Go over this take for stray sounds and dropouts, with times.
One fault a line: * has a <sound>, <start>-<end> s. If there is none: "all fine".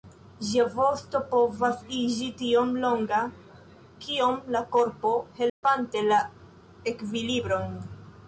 * has a dropout, 5.5-5.6 s